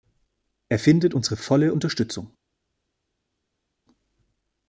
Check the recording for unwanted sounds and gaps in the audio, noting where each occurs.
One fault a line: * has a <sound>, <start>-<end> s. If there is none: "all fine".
all fine